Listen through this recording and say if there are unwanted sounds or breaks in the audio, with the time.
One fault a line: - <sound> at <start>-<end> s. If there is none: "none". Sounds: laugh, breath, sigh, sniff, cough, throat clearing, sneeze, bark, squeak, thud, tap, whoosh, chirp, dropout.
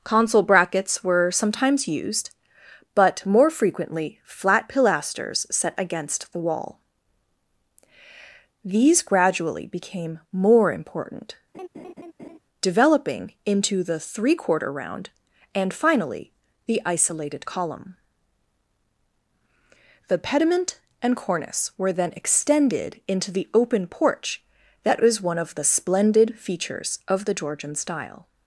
- laugh at 11.5-12.4 s